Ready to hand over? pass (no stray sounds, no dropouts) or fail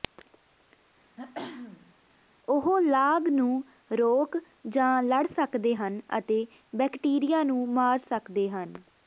fail